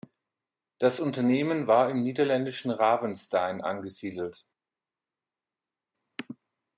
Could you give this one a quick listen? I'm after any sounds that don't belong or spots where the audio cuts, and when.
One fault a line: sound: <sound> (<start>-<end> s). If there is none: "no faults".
no faults